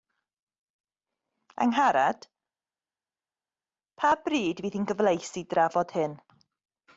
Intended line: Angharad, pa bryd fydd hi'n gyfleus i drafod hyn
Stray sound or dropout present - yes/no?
no